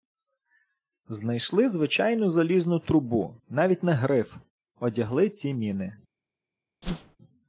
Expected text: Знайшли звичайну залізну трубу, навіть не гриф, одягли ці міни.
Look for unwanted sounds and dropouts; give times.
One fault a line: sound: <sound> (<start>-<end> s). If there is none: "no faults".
sound: whoosh (6.8-7.2 s)